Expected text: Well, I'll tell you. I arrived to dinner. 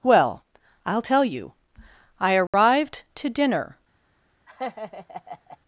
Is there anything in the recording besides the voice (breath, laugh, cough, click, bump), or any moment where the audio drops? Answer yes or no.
yes